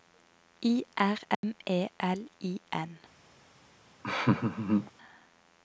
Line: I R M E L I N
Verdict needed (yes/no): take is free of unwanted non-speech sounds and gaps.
no